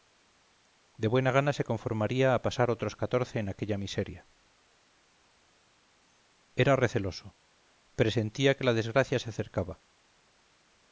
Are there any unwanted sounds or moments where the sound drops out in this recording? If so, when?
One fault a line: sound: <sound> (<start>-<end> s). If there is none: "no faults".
no faults